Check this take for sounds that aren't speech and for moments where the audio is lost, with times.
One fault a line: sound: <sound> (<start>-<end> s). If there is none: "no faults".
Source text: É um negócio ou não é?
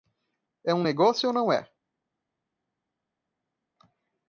no faults